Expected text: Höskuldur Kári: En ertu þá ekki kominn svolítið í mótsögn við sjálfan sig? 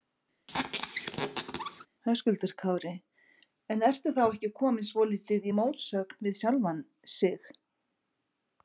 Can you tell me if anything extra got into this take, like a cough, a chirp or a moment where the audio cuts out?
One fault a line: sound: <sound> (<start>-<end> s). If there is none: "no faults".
sound: squeak (0.5-1.9 s)